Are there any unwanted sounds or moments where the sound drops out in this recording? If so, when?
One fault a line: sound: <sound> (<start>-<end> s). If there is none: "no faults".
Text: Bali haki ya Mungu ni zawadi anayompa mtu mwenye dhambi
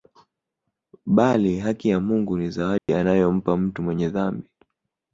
sound: dropout (2.8-2.9 s)